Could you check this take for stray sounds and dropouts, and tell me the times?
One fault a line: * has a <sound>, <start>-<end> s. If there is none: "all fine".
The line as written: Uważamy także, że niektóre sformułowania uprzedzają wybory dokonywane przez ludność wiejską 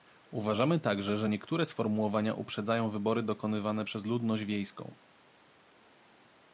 all fine